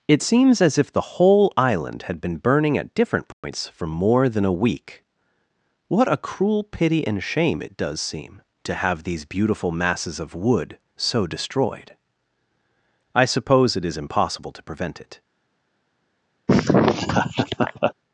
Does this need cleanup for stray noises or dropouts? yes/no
yes